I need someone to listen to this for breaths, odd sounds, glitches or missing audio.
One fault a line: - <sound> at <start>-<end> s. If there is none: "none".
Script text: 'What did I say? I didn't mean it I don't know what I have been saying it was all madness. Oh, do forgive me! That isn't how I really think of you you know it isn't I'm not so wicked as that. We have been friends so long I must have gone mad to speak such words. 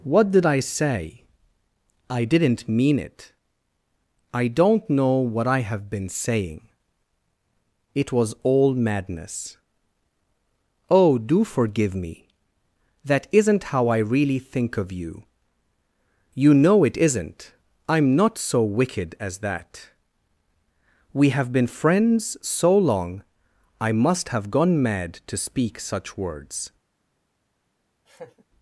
- laugh at 28.1-28.4 s